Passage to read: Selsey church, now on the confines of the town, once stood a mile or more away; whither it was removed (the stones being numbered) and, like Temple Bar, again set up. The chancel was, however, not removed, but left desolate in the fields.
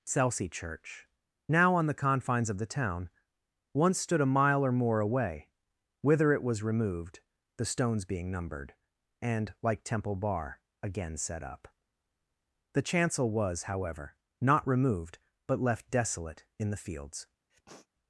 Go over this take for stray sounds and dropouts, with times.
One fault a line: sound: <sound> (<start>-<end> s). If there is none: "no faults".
sound: sniff (17.5-17.9 s)